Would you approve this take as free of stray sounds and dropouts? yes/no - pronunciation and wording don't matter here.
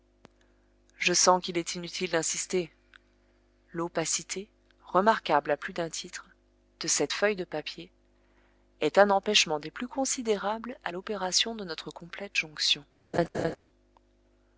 no